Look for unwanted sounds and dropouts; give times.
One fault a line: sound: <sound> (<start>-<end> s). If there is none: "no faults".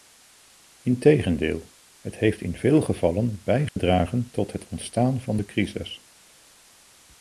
sound: dropout (3.7-3.8 s)